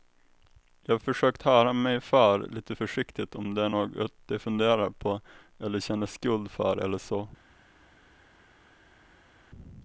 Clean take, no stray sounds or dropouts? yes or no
yes